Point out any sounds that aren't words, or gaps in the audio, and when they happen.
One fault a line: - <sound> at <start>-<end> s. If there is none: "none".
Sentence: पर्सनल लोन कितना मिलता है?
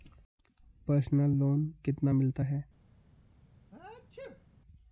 - sneeze at 3.7-4.4 s